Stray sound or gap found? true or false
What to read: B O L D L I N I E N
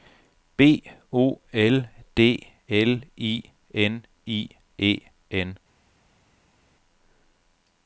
false